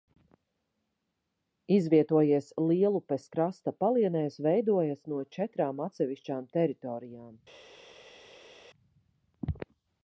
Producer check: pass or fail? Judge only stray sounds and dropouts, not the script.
pass